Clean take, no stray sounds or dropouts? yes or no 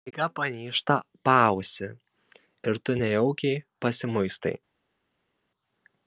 yes